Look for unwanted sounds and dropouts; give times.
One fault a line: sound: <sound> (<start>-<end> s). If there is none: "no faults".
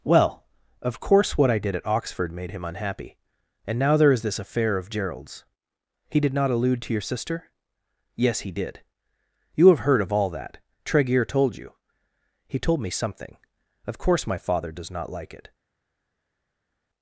no faults